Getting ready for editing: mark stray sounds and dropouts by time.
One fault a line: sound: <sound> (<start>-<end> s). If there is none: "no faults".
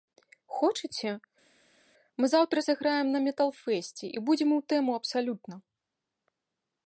no faults